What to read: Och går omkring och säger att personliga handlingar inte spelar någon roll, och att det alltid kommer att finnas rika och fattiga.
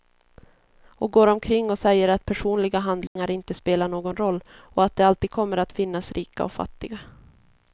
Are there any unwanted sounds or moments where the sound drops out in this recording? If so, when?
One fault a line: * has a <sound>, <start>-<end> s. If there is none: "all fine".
* has a dropout, 3.1-3.2 s